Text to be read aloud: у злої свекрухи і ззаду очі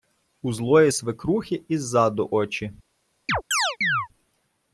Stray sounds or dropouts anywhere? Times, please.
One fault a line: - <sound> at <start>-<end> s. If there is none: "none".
- chirp at 3.3-4.1 s